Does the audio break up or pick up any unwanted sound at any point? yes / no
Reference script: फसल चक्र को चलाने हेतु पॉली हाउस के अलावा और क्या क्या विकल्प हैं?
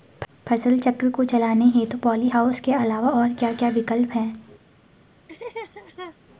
yes